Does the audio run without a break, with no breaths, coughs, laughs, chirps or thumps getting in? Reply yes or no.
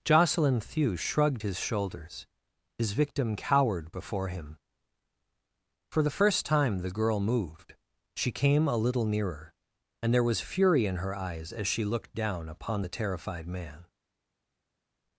yes